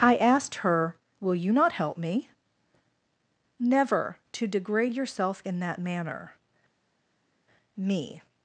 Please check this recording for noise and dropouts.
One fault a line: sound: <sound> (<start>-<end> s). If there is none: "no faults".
no faults